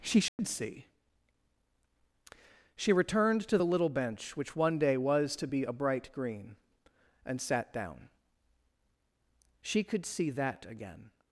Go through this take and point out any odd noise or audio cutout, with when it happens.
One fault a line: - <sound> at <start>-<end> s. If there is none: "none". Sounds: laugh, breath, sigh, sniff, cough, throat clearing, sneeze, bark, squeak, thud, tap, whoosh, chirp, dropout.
- dropout at 0.3-0.4 s